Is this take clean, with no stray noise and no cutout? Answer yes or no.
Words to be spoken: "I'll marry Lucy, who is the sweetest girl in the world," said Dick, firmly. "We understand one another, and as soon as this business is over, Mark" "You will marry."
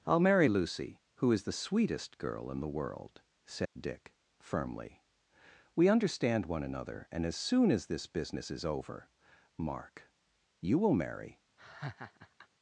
no